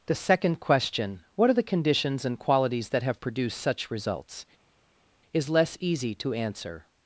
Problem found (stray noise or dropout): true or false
false